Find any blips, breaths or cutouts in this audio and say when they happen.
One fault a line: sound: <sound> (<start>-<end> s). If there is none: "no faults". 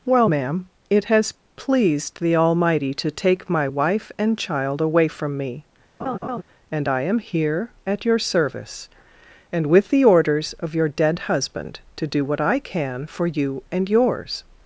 sound: laugh (6.0-6.4 s)